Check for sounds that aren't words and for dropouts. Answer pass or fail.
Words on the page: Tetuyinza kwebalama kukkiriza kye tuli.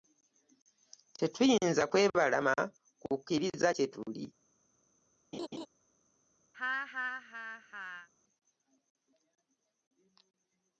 fail